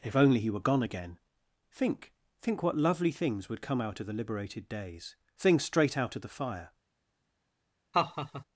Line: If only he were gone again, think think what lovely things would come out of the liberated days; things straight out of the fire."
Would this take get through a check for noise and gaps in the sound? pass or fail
fail